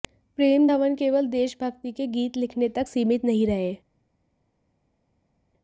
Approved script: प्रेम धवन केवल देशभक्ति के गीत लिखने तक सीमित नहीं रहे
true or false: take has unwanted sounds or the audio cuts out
false